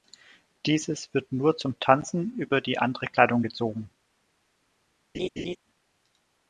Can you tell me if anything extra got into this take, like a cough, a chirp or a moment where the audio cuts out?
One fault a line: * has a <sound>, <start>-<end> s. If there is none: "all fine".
* has a laugh, 5.1-5.6 s